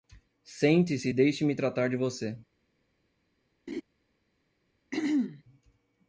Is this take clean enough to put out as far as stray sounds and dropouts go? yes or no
no